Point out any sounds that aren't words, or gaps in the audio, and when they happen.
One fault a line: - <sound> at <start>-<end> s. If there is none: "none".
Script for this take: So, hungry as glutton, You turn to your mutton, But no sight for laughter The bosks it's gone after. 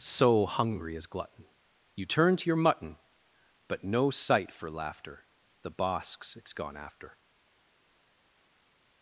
none